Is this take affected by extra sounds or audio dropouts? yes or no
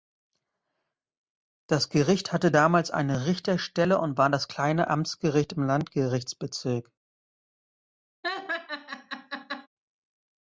yes